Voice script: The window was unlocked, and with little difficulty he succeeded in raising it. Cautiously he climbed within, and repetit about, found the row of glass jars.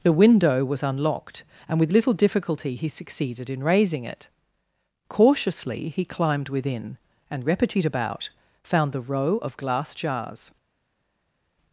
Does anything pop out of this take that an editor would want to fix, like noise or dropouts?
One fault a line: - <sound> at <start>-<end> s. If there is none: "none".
none